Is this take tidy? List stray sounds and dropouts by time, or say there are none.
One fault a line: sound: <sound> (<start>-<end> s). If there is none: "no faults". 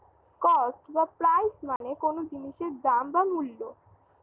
sound: dropout (1.8-1.8 s)